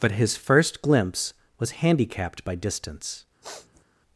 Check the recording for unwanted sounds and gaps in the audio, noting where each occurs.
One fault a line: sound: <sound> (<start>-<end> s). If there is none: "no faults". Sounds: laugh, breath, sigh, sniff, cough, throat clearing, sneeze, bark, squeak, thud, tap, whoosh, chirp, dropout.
sound: sniff (3.4-3.8 s)